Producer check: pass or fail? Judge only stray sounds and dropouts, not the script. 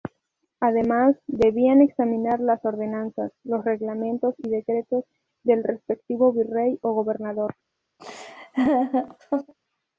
fail